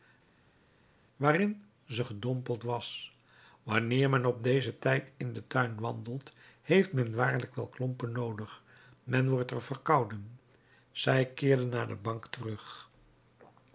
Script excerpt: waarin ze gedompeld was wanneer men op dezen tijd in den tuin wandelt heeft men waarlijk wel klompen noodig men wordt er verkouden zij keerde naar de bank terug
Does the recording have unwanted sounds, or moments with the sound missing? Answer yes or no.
no